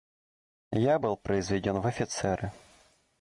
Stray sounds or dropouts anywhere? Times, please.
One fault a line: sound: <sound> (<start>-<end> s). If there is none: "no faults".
no faults